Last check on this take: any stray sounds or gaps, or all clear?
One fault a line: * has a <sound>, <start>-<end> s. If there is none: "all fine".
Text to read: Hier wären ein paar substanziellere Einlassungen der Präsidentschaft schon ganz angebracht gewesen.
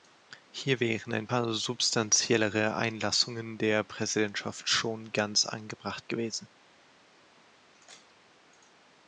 all fine